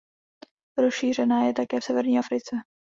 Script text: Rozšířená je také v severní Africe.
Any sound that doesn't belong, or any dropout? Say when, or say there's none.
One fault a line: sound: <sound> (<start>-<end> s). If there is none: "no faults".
no faults